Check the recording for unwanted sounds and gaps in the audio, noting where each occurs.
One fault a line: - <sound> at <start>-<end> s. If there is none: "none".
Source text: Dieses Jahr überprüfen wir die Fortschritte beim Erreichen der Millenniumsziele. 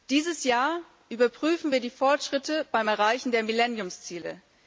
none